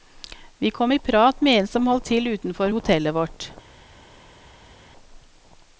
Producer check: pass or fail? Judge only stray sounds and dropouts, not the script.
pass